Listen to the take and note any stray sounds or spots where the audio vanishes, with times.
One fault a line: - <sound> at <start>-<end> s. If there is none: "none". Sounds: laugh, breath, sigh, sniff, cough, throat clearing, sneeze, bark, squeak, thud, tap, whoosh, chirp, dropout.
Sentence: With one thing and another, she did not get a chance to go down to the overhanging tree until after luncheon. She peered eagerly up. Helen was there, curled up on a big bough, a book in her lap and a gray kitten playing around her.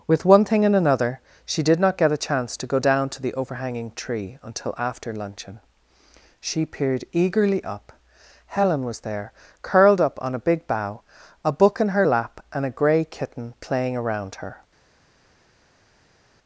none